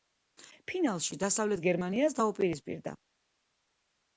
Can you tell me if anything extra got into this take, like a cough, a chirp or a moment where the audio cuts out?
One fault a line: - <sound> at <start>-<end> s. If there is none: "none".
none